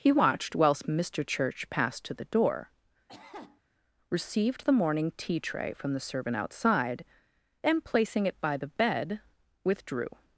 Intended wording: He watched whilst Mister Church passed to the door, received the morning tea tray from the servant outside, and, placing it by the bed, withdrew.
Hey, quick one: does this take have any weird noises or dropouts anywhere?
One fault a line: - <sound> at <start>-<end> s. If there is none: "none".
- cough at 3.1-3.6 s